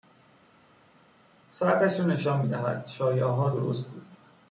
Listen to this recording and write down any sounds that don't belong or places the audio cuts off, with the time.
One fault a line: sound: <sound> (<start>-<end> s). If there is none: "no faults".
no faults